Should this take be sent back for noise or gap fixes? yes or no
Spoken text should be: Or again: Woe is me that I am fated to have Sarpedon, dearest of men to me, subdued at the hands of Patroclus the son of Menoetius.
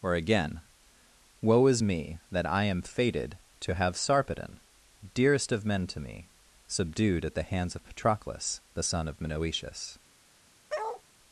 yes